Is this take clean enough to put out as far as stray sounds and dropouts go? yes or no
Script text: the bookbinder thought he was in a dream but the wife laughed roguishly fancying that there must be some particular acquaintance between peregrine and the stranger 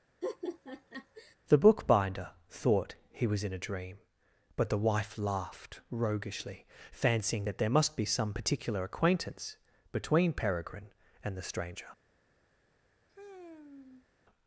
no